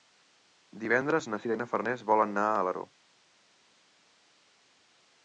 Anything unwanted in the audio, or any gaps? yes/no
no